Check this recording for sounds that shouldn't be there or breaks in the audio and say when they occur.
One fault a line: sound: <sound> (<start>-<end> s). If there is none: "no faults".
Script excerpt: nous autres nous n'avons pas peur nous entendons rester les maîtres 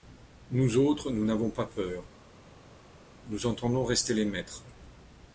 no faults